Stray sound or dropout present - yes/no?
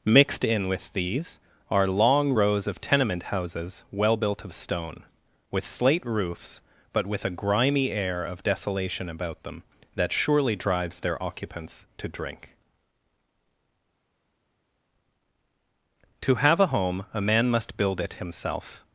no